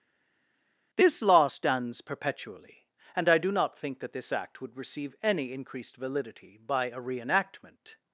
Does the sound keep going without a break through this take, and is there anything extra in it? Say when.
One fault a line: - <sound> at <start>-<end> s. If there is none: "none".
none